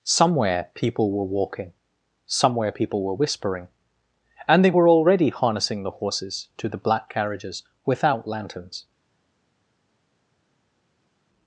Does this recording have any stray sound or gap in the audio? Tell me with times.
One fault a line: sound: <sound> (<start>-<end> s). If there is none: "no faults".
no faults